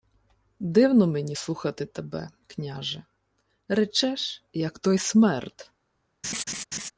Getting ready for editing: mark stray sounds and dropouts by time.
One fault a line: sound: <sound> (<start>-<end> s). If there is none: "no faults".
sound: laugh (6.2-6.9 s)